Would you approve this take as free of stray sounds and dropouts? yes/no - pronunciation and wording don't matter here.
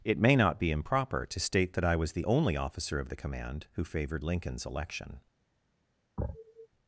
no